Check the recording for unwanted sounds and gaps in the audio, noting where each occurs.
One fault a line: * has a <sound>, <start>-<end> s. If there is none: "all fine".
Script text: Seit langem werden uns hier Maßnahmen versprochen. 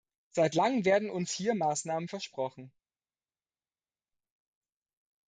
all fine